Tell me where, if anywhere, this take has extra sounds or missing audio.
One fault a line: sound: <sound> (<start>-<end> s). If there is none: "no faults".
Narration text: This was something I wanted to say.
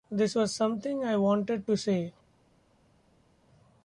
no faults